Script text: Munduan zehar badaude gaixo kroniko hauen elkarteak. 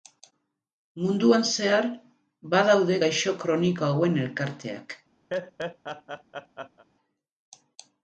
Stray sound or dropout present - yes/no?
yes